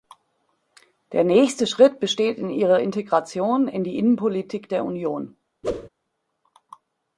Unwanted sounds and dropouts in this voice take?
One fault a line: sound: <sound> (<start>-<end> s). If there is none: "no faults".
sound: whoosh (5.6-5.9 s)